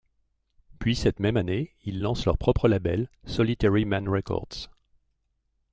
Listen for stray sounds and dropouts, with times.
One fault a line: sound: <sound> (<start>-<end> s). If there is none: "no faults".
no faults